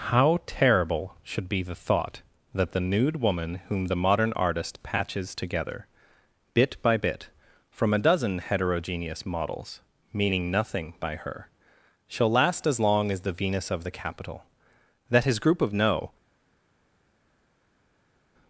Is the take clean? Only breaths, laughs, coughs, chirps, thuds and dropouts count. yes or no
yes